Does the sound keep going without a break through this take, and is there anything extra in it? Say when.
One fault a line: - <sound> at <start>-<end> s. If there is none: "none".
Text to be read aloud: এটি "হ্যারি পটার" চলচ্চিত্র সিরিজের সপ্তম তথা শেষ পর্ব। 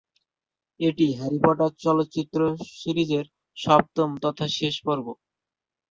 none